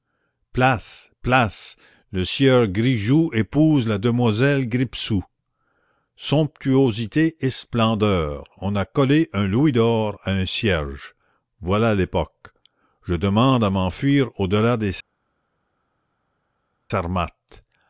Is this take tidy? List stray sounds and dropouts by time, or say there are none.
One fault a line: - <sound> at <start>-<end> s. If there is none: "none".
none